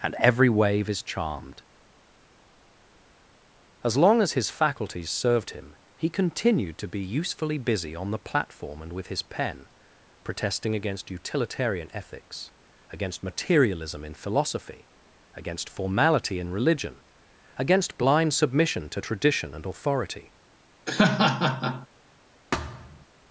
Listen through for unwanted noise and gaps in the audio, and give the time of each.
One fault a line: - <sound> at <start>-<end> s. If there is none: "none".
- laugh at 20.9-21.9 s
- thud at 22.5-23.1 s